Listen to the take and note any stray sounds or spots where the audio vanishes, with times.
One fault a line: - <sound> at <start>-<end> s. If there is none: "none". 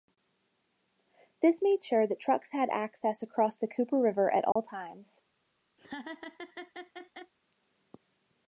- dropout at 4.5-4.6 s
- laugh at 5.8-7.3 s